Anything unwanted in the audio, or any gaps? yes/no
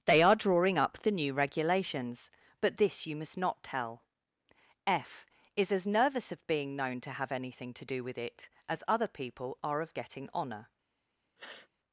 yes